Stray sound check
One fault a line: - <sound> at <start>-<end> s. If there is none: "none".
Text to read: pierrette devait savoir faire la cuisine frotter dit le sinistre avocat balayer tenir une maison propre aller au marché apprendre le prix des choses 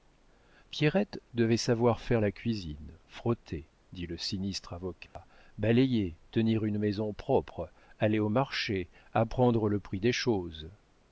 - dropout at 5.1-5.2 s